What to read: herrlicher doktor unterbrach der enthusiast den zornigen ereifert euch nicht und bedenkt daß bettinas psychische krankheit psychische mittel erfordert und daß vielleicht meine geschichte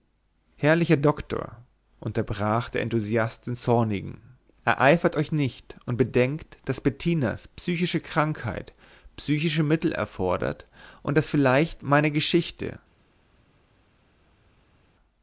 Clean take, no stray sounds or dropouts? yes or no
yes